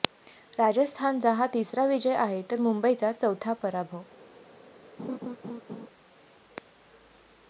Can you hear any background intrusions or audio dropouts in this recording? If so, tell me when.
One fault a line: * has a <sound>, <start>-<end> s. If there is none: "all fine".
* has a laugh, 5.0-5.9 s